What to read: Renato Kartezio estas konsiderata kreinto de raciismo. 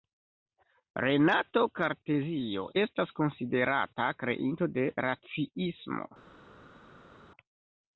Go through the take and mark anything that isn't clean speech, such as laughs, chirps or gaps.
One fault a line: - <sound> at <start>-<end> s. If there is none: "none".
none